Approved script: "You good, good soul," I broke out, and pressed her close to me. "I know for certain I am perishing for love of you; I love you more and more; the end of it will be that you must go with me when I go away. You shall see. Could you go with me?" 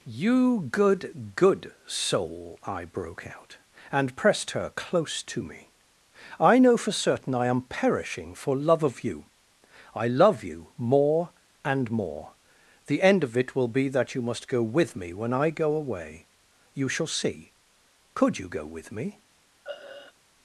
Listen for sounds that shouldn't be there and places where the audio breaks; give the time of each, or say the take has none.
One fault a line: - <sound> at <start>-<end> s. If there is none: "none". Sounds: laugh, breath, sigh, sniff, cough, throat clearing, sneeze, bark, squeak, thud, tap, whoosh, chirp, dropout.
- throat clearing at 19.6-20.1 s